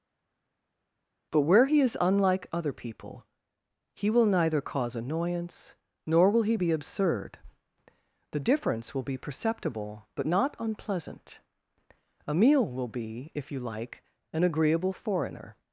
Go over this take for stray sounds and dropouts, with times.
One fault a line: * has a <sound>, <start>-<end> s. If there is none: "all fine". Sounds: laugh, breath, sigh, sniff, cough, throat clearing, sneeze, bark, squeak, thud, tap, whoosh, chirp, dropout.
all fine